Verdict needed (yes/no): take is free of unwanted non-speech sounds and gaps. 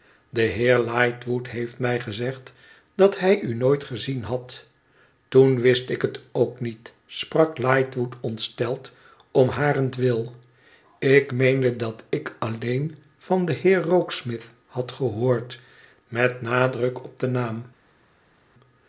yes